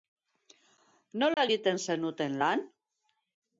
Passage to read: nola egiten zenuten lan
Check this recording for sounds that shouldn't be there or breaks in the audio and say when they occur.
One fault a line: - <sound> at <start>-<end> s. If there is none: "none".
- dropout at 1.3-1.4 s